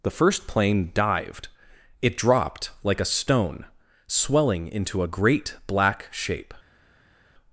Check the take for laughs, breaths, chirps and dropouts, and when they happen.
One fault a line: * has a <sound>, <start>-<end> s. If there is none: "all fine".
all fine